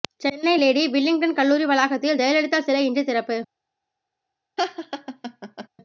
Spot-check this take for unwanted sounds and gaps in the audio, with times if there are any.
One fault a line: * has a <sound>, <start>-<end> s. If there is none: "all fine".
* has a laugh, 4.6-5.7 s